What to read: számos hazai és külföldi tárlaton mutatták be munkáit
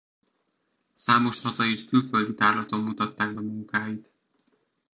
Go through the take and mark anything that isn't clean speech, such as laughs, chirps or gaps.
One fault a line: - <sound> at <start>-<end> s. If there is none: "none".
none